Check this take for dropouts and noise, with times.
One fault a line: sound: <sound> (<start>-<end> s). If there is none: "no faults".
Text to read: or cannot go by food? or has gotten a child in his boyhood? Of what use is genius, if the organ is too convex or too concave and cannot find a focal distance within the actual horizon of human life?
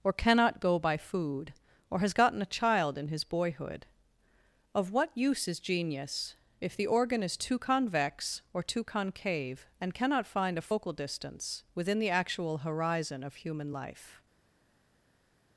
no faults